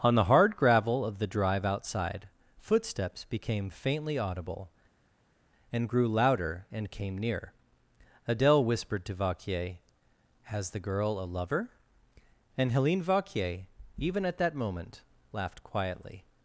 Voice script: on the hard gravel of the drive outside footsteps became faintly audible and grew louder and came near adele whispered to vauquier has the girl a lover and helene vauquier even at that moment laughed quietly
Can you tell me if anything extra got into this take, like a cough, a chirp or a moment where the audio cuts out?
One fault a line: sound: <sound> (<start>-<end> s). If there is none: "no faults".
no faults